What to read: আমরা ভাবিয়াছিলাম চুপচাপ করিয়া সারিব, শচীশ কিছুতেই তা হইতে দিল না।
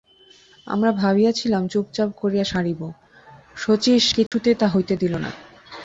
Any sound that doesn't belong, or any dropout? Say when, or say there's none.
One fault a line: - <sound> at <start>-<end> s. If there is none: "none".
- dropout at 4.3-4.3 s